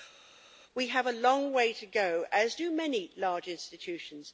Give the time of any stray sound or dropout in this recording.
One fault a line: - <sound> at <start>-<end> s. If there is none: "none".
none